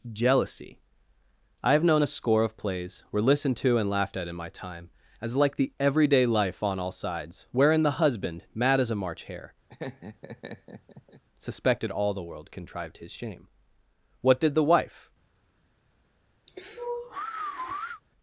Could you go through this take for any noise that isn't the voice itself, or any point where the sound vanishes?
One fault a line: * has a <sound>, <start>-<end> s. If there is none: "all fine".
* has a laugh, 9.7-11.2 s
* has a sigh, 16.5-18.0 s